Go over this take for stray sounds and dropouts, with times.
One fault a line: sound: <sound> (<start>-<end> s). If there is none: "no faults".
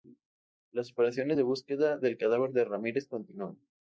no faults